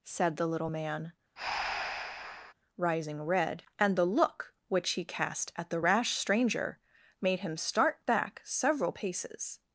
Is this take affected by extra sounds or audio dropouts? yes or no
yes